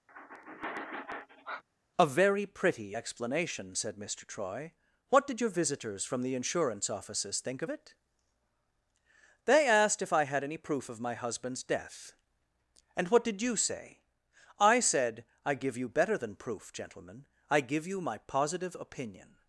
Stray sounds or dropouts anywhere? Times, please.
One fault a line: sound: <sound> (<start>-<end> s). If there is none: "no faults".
sound: sigh (0.1-1.6 s)